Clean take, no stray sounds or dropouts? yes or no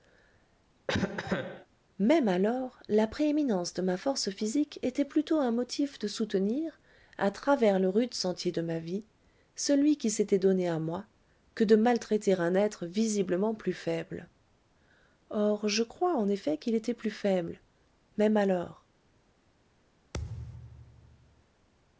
no